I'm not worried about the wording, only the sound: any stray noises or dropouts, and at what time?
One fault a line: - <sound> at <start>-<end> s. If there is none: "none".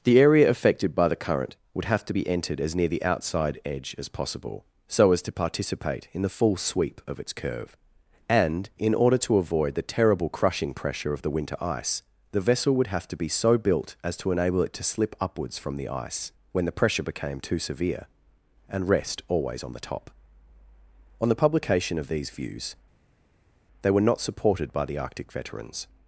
none